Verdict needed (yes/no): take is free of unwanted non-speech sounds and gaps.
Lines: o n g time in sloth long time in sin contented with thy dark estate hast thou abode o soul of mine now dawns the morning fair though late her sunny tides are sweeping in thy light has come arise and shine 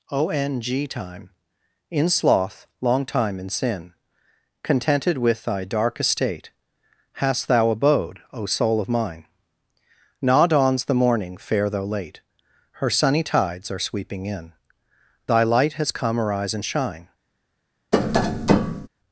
no